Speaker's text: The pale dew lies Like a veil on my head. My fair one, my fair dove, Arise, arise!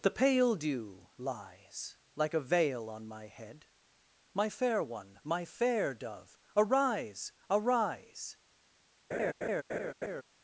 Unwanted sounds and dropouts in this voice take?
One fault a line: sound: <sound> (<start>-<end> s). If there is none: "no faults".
sound: laugh (9.1-10.2 s)